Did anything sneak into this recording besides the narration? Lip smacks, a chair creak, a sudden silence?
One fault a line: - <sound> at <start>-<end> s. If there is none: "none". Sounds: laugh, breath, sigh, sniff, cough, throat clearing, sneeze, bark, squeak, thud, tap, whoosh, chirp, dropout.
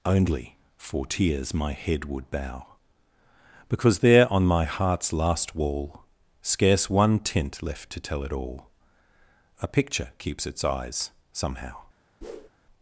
- whoosh at 12.2-12.5 s